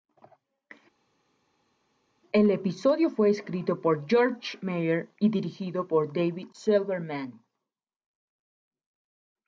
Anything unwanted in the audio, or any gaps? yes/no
no